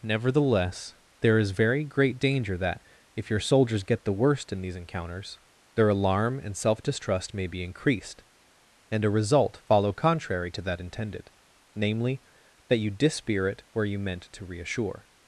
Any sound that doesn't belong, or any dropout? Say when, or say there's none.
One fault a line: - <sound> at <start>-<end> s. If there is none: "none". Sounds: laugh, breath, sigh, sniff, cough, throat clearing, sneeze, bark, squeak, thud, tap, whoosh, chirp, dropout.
none